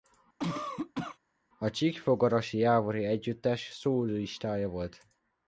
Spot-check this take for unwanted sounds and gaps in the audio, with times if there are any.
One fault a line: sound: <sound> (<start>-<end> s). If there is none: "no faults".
sound: cough (0.4-1.2 s)